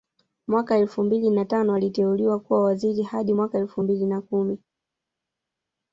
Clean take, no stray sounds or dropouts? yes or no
yes